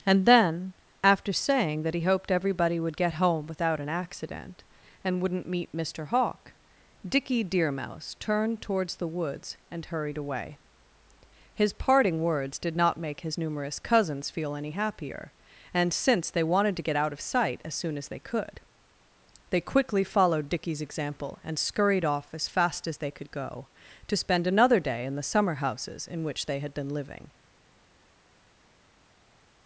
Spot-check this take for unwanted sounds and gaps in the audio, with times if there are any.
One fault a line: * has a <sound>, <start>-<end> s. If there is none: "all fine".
all fine